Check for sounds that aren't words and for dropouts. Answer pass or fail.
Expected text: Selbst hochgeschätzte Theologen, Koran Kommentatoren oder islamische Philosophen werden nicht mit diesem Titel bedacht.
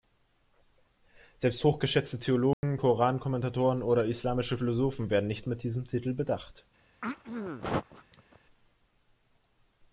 fail